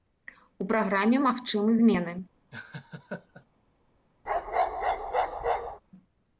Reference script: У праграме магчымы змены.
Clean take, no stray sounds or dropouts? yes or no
no